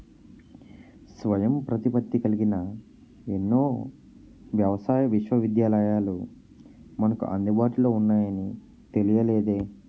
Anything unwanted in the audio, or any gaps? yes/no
no